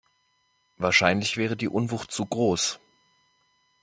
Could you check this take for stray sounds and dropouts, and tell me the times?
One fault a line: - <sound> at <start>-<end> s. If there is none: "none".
none